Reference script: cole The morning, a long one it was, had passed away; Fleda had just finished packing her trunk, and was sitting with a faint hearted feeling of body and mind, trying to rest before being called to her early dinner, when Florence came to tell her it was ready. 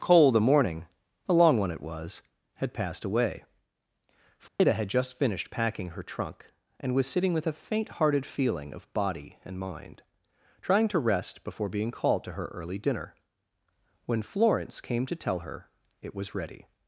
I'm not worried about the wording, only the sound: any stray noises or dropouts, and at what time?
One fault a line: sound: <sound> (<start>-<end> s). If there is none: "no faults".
sound: dropout (4.5-4.6 s)